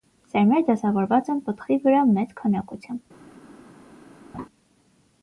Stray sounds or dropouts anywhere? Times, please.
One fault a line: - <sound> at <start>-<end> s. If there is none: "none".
- laugh at 4.3-4.5 s